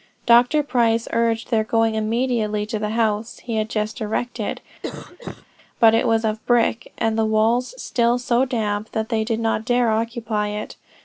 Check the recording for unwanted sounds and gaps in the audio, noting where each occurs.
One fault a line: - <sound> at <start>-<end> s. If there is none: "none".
- cough at 4.8-5.5 s